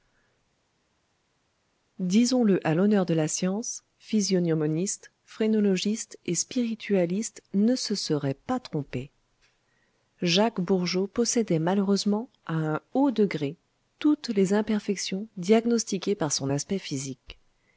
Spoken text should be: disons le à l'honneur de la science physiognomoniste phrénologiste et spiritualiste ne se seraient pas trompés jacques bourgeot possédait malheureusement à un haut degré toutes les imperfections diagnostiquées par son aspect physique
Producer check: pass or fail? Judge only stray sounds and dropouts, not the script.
pass